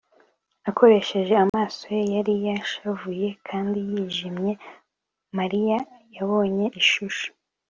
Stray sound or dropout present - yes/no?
yes